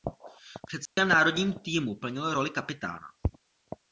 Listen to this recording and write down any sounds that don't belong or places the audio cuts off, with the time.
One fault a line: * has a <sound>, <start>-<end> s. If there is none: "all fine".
* has a dropout, 0.9-1.0 s